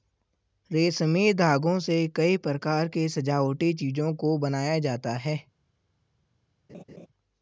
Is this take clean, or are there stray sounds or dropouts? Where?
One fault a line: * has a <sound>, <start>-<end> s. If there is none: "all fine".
* has a laugh, 6.7-7.1 s